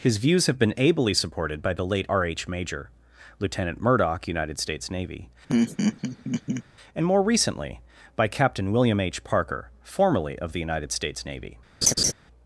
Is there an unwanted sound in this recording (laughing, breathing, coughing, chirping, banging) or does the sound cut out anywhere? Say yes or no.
yes